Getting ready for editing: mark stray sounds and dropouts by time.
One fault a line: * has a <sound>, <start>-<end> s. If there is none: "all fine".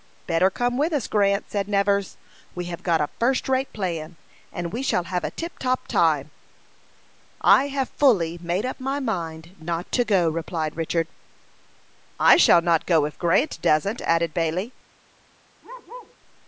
* has a bark, 15.6-16.2 s